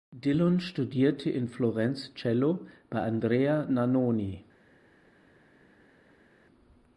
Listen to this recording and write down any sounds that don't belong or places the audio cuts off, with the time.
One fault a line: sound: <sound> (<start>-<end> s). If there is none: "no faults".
no faults